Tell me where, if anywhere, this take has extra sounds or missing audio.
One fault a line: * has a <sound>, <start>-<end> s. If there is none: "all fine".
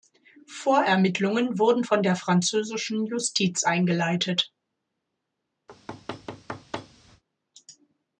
* has a thud, 5.7-7.2 s